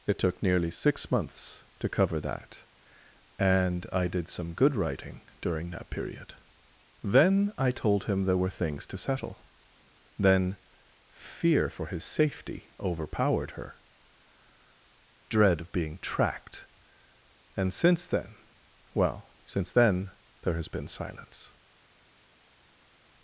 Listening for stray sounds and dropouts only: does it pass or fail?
pass